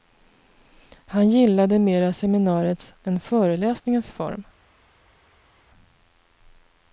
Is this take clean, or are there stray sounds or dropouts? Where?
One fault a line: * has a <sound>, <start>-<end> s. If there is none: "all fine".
all fine